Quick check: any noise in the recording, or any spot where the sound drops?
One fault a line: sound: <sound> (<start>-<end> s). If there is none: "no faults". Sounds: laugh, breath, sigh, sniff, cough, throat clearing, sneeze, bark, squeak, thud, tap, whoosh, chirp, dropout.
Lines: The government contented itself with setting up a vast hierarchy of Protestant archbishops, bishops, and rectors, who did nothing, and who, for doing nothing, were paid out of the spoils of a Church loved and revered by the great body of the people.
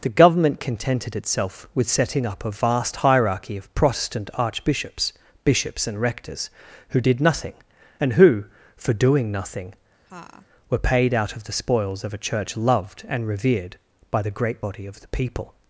sound: laugh (10.1-10.5 s)